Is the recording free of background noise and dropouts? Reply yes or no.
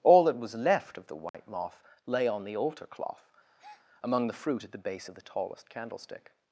no